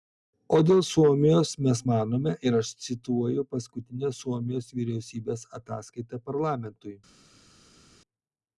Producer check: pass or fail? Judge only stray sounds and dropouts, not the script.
pass